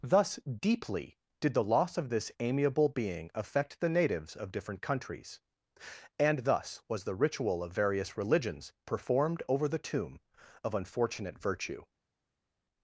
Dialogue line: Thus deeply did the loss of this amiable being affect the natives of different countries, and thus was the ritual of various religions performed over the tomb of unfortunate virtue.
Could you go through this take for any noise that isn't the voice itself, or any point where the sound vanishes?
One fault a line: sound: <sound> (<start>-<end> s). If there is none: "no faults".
no faults